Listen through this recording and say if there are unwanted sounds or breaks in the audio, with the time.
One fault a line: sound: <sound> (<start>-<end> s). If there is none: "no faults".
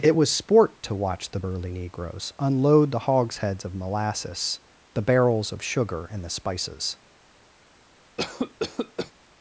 sound: cough (8.2-9.1 s)